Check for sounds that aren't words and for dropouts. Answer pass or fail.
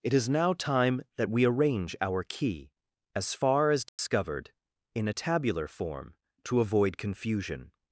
fail